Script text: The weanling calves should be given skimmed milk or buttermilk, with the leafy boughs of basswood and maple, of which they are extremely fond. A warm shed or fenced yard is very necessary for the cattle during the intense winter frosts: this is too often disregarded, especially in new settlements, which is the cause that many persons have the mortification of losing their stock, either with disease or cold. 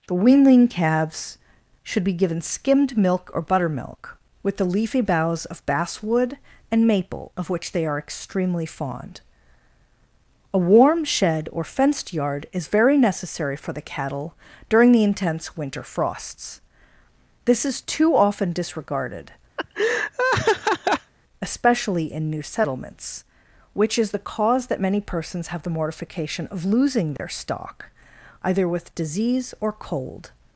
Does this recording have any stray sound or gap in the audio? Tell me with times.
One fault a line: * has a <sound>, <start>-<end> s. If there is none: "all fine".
* has a laugh, 19.6-21.1 s
* has a dropout, 27.2-27.2 s